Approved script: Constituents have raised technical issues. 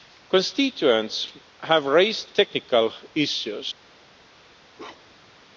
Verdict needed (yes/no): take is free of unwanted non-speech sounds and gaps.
no